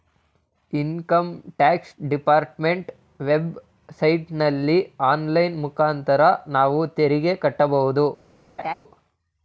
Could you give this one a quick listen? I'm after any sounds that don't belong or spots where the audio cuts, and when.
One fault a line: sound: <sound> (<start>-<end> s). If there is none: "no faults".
sound: laugh (8.6-8.7 s)